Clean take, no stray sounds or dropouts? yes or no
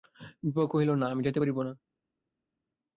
yes